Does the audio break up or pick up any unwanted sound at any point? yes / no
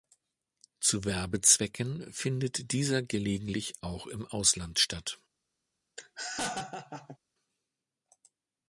yes